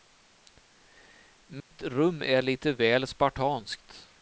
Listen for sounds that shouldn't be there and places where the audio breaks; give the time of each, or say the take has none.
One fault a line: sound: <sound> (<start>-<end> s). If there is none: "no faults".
sound: dropout (1.6-1.7 s)